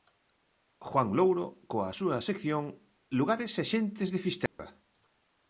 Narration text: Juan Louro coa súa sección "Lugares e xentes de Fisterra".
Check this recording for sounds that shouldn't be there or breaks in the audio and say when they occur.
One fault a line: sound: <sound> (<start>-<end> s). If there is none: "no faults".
sound: dropout (4.5-4.6 s)